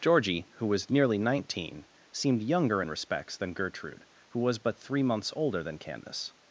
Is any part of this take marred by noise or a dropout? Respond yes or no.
no